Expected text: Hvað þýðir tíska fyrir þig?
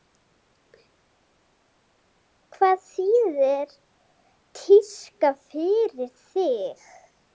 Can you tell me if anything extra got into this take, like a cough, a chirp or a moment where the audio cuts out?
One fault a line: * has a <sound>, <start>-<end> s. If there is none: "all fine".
all fine